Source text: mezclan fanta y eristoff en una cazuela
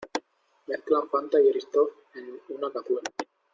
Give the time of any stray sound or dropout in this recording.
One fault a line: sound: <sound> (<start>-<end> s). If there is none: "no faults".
no faults